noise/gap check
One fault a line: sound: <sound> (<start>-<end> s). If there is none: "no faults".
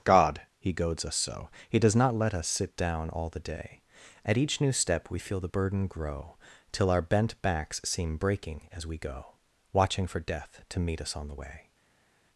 no faults